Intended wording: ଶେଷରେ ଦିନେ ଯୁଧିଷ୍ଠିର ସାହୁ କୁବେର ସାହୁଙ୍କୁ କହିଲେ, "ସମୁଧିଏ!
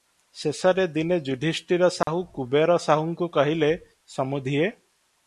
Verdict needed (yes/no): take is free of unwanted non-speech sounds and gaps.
no